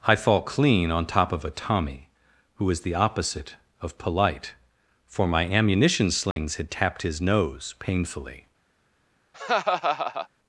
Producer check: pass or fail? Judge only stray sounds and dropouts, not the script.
fail